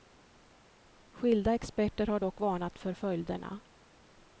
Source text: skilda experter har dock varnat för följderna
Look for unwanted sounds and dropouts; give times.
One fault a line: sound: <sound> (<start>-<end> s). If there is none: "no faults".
no faults